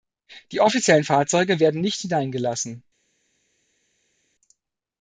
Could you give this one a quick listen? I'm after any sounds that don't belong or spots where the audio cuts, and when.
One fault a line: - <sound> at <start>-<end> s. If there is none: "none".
none